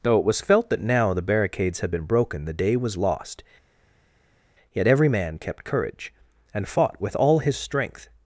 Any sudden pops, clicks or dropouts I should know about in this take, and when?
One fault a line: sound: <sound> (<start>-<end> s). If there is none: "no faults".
no faults